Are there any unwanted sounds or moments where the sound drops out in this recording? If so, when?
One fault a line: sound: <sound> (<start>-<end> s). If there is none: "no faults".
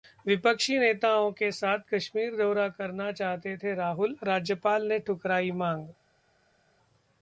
no faults